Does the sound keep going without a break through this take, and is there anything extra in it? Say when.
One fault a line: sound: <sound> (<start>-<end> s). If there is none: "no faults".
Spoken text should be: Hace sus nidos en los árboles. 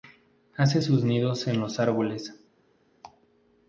no faults